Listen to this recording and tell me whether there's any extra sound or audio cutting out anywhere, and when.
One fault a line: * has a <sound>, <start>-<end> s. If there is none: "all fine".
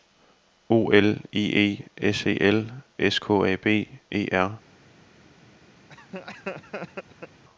* has a laugh, 5.9-7.4 s